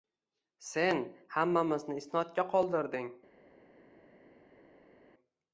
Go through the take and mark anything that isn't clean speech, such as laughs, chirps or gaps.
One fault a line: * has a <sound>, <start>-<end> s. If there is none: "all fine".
all fine